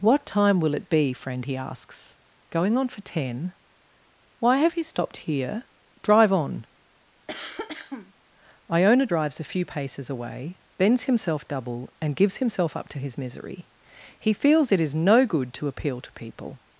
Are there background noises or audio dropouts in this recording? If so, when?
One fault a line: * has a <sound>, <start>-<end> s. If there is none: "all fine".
* has a cough, 7.3-8.1 s